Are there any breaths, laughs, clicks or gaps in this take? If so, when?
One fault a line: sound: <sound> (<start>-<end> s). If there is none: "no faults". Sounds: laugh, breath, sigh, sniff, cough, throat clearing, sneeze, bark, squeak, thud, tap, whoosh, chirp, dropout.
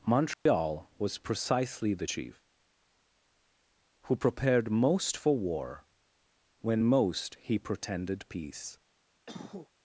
sound: dropout (0.3-0.5 s)
sound: cough (9.3-9.7 s)